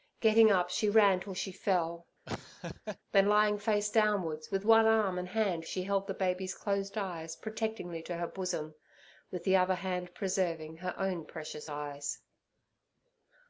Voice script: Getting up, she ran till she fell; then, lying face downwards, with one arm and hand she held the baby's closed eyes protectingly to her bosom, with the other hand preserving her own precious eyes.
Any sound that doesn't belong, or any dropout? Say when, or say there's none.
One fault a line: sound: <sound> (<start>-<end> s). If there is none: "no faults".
sound: laugh (2.3-3.0 s)